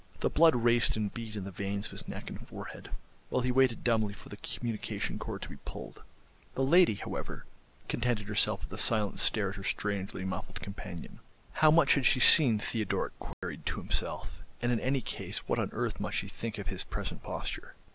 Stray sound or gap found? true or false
true